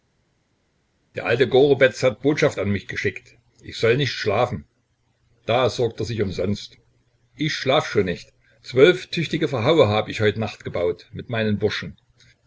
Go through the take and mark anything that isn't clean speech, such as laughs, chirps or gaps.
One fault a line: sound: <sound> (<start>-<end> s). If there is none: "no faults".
no faults